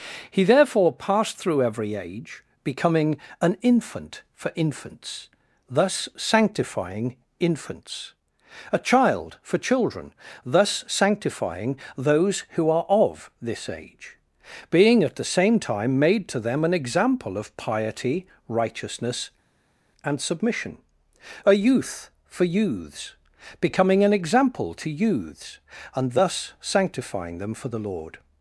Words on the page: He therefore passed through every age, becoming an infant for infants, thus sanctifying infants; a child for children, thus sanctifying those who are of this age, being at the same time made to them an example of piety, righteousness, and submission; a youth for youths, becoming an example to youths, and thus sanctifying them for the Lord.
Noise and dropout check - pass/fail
pass